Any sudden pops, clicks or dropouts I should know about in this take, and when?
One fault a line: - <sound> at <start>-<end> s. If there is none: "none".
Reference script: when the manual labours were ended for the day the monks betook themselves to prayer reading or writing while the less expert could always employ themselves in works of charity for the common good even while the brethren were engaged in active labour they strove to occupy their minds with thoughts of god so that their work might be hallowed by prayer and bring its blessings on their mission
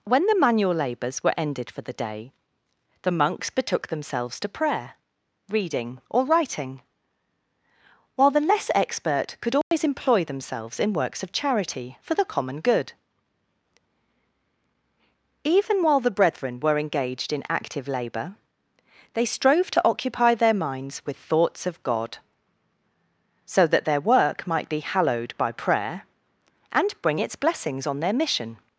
- dropout at 9.6-9.7 s